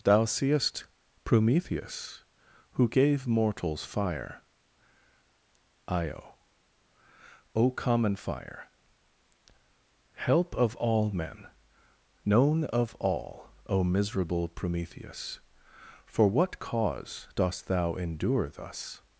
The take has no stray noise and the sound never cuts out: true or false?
true